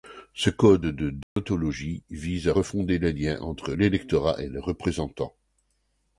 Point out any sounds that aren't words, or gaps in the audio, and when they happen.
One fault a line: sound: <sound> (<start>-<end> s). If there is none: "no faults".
sound: dropout (1.2-1.4 s)